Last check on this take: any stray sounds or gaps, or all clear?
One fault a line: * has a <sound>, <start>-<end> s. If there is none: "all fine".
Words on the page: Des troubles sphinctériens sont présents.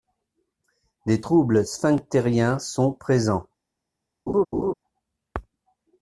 * has a laugh, 4.3-4.7 s